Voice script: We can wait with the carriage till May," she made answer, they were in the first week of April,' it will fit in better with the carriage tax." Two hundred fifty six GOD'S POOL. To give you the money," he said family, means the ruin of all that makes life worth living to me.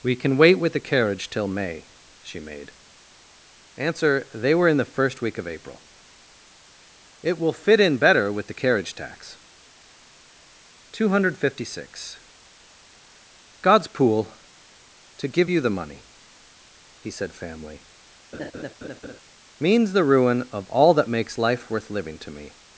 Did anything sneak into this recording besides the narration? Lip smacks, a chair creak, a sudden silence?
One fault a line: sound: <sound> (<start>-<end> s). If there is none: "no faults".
sound: laugh (18.3-19.2 s)